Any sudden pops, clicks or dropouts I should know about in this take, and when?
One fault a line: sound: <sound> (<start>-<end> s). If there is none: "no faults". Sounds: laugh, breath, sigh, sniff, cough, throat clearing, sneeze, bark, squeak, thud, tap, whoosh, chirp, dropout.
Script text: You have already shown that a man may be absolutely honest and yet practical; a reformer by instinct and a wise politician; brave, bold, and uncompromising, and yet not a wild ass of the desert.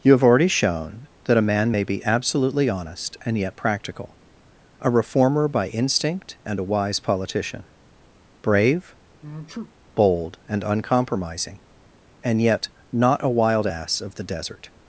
sound: sneeze (9.2-9.7 s)